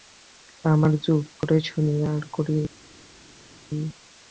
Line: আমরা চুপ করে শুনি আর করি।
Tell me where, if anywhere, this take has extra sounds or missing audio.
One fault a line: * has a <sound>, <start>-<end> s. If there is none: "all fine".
all fine